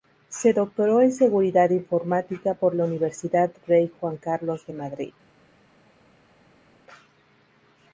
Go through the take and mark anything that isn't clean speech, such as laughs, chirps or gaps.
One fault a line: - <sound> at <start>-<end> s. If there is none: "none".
none